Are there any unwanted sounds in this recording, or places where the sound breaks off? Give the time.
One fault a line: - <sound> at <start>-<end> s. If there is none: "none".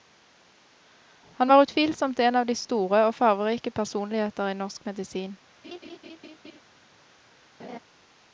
- laugh at 5.6-6.6 s
- laugh at 7.6-7.8 s